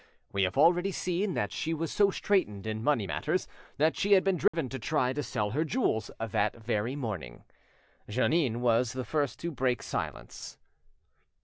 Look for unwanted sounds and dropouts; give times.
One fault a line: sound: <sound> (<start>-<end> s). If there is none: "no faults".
sound: dropout (4.5-4.5 s)